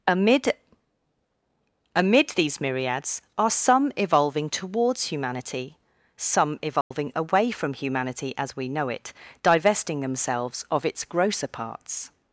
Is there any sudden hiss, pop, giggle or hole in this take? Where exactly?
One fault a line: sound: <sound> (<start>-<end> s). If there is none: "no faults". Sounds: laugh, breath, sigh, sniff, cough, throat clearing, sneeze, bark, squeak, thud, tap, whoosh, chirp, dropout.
sound: dropout (6.8-6.9 s)